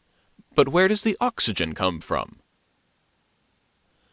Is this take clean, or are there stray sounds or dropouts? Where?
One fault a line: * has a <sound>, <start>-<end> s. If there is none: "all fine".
all fine